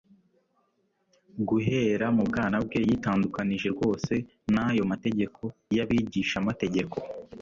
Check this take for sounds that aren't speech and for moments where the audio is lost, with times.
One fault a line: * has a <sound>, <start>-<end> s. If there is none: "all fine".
all fine